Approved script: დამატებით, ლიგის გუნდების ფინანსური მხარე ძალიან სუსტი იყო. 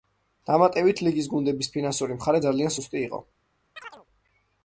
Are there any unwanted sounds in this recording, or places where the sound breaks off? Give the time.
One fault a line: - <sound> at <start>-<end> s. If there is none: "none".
- chirp at 3.8-4.1 s